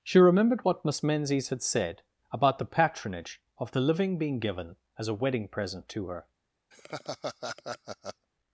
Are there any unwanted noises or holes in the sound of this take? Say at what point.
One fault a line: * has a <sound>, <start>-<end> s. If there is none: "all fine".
* has a laugh, 6.7-8.3 s